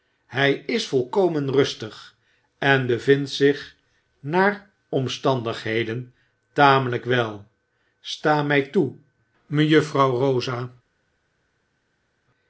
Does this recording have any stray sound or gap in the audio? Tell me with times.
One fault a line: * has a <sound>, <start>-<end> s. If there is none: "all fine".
all fine